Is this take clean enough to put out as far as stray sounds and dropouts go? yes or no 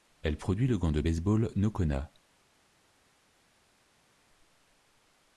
yes